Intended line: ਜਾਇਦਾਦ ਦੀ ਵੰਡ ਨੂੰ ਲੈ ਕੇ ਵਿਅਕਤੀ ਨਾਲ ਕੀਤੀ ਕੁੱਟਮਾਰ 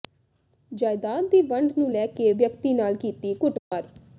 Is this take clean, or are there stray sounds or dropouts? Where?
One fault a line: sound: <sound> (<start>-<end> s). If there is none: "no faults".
sound: dropout (3.6-3.7 s)